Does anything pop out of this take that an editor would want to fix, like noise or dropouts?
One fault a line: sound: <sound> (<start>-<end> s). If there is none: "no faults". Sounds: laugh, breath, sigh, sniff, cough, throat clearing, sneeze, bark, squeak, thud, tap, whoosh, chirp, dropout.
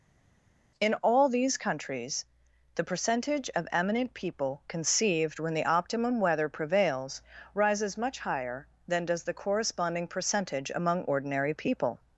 no faults